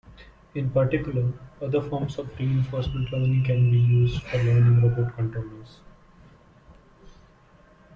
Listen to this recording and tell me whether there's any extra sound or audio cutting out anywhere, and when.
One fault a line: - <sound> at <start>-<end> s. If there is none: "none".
none